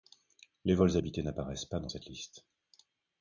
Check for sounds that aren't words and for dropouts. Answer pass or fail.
pass